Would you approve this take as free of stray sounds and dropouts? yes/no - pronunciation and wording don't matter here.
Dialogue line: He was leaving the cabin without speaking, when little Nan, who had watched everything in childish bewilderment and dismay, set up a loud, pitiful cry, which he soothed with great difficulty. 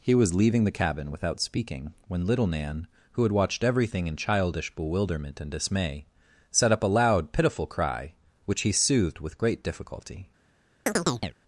no